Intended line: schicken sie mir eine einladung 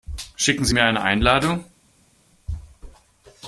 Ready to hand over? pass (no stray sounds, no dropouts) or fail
pass